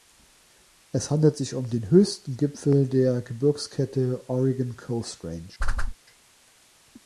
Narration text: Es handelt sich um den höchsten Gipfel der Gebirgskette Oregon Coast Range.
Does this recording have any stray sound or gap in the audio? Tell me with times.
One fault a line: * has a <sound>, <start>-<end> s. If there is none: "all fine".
* has a whoosh, 5.6-5.9 s